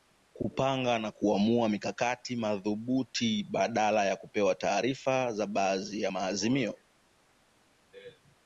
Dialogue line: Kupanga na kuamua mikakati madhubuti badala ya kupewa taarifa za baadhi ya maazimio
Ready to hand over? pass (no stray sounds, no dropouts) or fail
pass